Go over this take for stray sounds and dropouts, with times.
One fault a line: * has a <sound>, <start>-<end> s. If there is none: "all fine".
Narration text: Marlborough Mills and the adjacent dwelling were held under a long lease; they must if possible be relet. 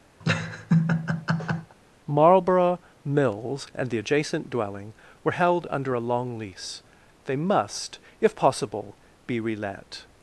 * has a laugh, 0.2-1.8 s